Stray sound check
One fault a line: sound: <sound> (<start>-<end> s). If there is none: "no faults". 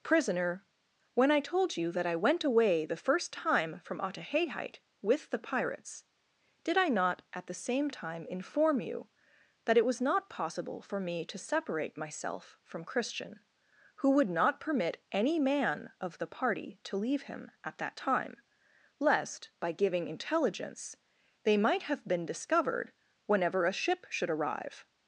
no faults